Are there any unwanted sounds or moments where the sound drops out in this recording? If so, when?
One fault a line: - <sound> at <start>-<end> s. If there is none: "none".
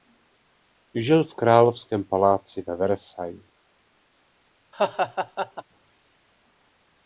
- laugh at 4.7-5.6 s